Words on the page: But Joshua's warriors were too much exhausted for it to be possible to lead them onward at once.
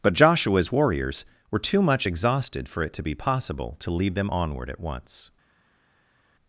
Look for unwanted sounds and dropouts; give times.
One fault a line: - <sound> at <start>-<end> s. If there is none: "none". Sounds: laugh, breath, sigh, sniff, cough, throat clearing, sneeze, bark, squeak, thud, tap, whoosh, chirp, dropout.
none